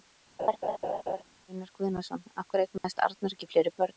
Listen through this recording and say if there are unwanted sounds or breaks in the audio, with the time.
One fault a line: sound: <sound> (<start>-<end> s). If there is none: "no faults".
sound: laugh (0.4-1.2 s)
sound: dropout (2.8-2.8 s)